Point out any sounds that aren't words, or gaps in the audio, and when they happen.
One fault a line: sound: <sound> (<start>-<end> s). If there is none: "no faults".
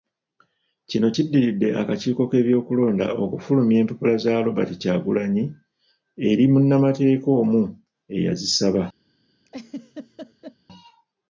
sound: laugh (9.5-10.6 s)